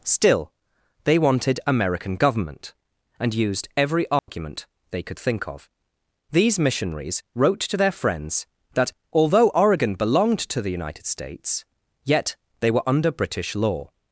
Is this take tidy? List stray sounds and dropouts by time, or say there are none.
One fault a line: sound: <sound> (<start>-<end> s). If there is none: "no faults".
sound: dropout (4.2-4.3 s)